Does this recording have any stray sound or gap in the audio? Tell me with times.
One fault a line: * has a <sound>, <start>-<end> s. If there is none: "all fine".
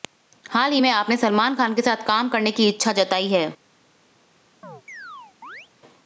* has a chirp, 4.6-5.7 s